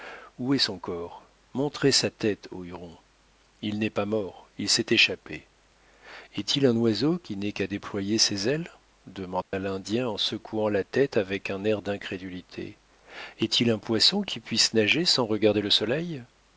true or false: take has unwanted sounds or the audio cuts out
true